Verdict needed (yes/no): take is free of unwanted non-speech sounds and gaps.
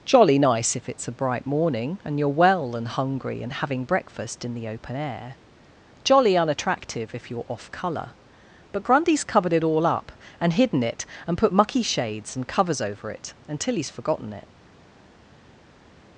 yes